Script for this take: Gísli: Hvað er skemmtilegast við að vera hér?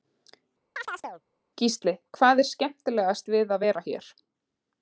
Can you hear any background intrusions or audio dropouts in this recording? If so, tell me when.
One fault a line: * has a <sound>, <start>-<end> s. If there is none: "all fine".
* has a chirp, 0.8-1.2 s